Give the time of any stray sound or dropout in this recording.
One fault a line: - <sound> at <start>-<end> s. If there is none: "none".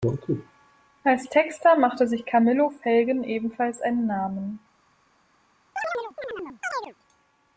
- chirp at 5.8-6.9 s